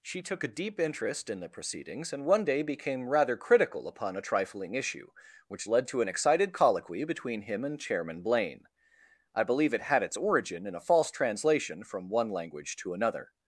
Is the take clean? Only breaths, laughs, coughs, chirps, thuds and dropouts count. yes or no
yes